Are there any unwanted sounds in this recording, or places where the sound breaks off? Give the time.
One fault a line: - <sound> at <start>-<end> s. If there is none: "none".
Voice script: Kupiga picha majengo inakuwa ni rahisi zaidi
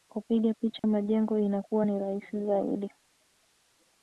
- dropout at 0.8-0.8 s